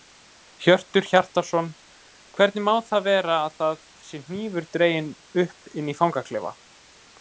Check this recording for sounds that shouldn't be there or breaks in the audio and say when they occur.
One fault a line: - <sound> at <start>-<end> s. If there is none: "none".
none